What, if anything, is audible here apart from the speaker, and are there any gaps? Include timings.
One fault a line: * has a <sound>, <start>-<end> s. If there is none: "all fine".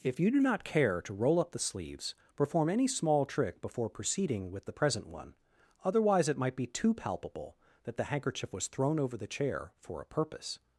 all fine